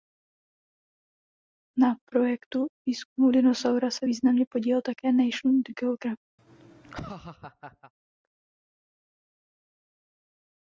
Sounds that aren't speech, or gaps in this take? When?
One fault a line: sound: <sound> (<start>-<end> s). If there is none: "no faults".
sound: laugh (6.4-7.9 s)